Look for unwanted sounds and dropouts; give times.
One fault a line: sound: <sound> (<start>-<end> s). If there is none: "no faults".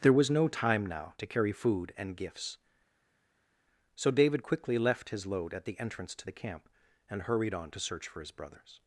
no faults